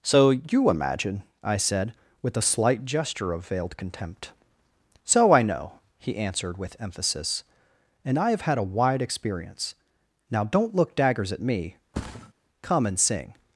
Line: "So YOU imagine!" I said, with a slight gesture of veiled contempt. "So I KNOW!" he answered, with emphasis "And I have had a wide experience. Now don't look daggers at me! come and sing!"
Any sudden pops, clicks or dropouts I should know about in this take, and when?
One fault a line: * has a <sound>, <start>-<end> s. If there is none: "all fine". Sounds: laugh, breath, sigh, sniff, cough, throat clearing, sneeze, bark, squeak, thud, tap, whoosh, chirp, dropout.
* has a thud, 11.9-12.3 s